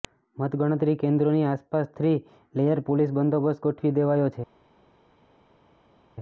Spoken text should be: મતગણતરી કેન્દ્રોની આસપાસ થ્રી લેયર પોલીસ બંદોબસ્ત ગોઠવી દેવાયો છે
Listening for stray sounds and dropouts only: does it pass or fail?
pass